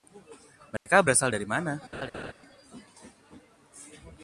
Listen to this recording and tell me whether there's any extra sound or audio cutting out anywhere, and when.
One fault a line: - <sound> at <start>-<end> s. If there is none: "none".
- dropout at 0.8-0.9 s
- laugh at 1.9-2.3 s